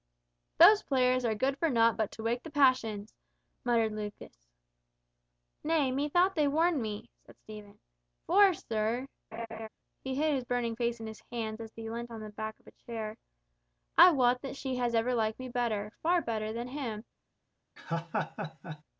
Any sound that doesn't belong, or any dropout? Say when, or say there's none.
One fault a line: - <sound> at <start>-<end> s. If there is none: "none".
- laugh at 9.3-9.7 s
- laugh at 17.8-18.8 s